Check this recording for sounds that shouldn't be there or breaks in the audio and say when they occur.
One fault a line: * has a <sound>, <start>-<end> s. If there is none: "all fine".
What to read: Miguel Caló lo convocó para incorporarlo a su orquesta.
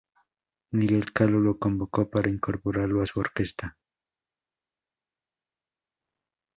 all fine